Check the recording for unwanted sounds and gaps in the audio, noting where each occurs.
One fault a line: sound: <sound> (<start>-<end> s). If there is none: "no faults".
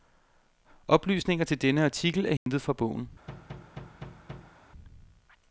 sound: dropout (2.4-2.5 s)
sound: thud (3.3-4.6 s)